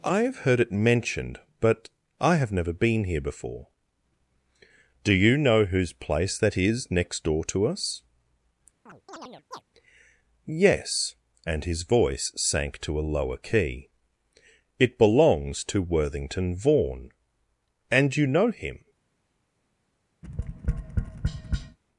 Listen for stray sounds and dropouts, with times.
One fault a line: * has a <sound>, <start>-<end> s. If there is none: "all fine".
* has a chirp, 8.9-9.6 s
* has a tap, 20.2-21.8 s